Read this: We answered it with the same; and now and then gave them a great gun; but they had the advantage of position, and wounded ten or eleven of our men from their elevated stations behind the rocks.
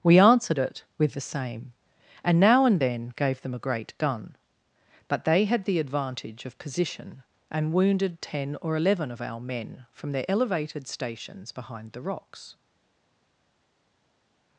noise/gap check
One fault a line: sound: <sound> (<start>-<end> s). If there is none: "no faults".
no faults